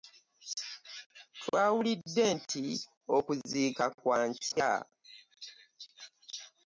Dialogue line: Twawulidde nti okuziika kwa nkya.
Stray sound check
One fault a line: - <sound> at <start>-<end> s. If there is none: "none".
- dropout at 4.5-4.6 s